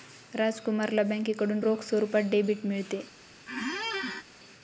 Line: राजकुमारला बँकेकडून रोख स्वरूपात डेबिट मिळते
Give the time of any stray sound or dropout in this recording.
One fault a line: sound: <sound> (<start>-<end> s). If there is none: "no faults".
sound: squeak (3.5-4.2 s)